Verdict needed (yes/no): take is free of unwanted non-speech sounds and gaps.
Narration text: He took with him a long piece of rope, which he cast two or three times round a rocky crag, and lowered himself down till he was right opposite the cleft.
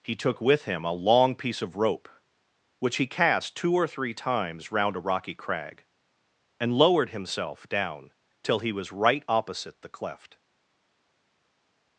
yes